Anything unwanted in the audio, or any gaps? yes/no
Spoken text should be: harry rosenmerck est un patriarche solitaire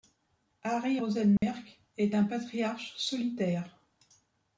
yes